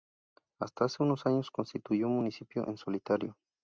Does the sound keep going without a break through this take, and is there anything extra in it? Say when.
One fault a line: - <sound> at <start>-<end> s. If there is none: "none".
none